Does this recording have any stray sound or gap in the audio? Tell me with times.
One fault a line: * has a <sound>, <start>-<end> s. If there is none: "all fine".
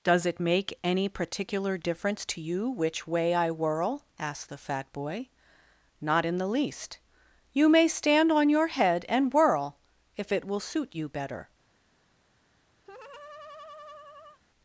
* has a laugh, 12.8-14.4 s